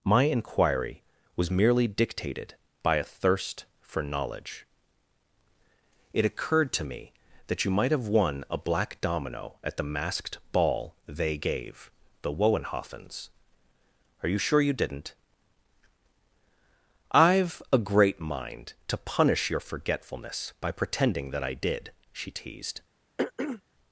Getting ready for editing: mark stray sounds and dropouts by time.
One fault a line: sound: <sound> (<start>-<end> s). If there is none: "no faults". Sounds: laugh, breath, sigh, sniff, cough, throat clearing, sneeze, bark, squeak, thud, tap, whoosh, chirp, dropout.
sound: throat clearing (23.2-23.6 s)